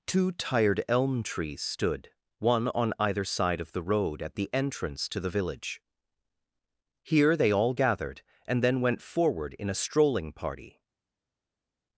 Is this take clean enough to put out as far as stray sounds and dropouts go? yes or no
yes